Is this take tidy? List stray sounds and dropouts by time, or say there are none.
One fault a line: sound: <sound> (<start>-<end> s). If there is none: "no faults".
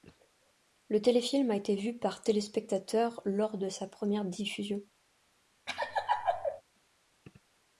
sound: laugh (5.7-6.6 s)